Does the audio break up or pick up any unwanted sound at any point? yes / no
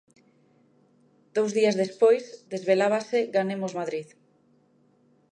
no